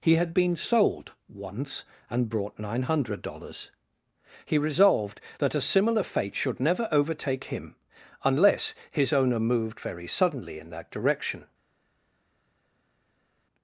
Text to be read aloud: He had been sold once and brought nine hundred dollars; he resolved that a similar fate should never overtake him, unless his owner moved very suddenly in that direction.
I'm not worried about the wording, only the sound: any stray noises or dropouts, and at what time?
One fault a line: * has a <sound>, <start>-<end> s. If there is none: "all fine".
all fine